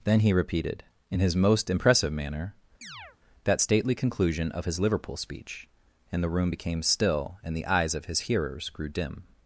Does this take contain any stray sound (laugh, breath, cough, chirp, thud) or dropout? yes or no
yes